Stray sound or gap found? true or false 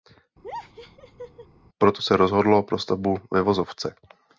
true